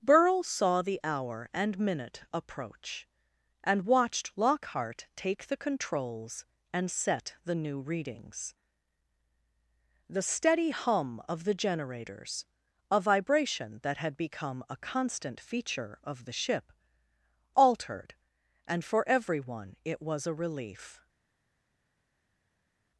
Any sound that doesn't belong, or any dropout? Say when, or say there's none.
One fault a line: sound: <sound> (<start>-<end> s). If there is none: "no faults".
no faults